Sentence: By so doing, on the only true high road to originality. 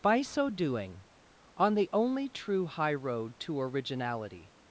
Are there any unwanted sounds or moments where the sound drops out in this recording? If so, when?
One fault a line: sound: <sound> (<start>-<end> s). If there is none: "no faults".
no faults